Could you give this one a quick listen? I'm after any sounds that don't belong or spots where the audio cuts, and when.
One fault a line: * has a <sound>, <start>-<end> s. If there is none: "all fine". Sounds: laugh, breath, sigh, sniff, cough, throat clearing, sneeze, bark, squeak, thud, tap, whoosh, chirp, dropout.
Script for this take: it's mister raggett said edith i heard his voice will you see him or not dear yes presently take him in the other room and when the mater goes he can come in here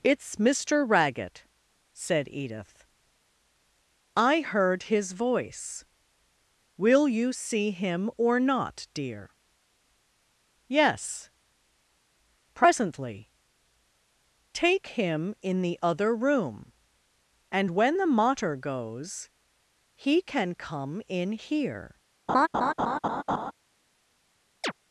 * has a laugh, 22.3-23.5 s
* has a chirp, 24.6-24.7 s